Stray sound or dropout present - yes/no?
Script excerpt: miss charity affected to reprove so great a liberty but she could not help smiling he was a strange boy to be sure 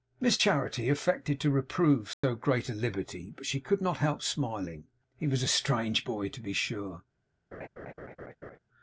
yes